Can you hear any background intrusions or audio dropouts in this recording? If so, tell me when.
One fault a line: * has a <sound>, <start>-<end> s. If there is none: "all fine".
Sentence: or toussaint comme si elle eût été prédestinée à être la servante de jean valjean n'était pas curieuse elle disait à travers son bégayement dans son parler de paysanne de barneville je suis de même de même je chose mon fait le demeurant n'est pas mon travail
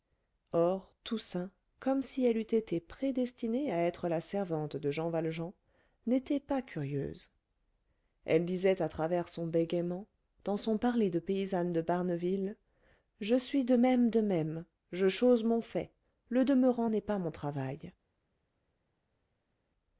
all fine